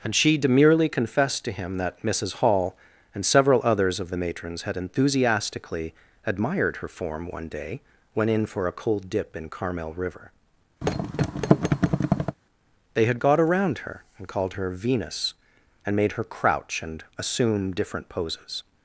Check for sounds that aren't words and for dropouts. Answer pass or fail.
fail